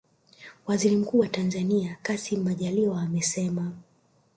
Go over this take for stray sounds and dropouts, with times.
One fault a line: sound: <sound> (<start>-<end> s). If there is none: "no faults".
no faults